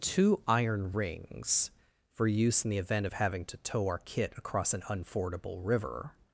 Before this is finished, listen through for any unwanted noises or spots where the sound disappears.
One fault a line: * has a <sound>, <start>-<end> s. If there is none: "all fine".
all fine